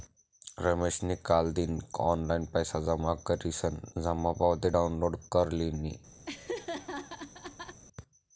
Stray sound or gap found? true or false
true